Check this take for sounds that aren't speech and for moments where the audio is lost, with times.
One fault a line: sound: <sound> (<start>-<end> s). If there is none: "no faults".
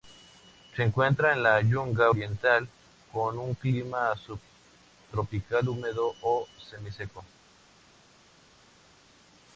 no faults